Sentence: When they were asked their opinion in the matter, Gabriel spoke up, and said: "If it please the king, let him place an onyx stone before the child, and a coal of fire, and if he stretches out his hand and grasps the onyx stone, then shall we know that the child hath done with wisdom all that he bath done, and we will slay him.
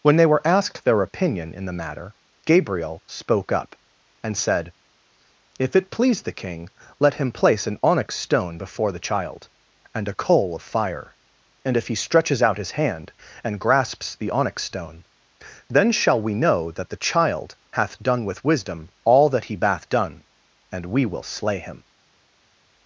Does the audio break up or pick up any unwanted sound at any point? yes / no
no